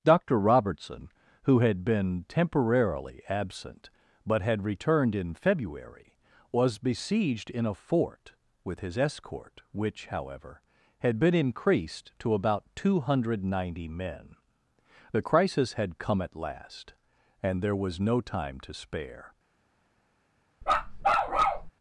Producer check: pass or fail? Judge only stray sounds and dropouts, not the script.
fail